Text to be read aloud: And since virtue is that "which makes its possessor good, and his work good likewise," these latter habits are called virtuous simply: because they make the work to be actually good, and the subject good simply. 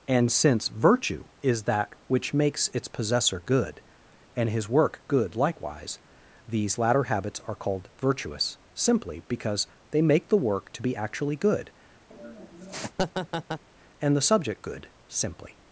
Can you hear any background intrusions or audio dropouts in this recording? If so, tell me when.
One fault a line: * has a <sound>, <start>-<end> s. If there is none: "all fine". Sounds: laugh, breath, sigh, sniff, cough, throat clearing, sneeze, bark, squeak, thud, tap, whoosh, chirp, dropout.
* has a laugh, 12.1-13.6 s